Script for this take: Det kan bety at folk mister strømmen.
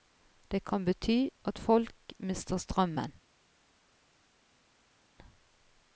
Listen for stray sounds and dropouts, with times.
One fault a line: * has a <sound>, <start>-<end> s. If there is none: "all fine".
all fine